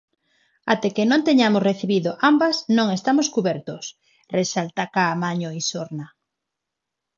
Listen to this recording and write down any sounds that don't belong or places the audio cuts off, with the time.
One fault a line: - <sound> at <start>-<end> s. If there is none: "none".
none